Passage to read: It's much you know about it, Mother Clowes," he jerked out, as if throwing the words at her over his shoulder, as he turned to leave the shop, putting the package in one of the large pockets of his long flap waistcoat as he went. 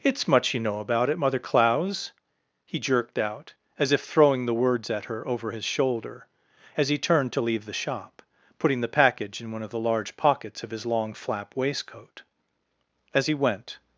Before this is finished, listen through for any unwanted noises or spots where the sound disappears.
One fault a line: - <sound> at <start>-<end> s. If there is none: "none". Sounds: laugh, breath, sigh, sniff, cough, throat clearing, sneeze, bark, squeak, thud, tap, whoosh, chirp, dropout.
none